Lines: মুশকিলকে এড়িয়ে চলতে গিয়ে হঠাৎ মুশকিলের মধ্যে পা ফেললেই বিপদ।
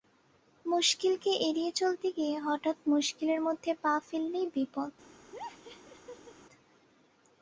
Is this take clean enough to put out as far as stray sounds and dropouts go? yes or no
no